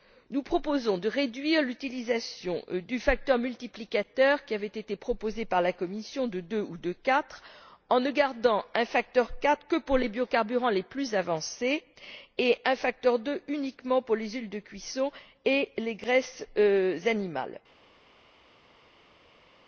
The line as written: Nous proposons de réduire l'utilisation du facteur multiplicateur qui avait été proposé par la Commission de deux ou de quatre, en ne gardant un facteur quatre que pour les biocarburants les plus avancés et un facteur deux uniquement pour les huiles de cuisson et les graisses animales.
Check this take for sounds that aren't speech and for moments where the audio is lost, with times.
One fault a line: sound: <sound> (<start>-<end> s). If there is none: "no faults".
no faults